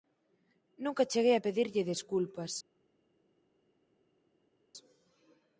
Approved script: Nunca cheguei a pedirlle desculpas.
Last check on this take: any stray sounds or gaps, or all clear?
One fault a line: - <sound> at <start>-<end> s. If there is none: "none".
none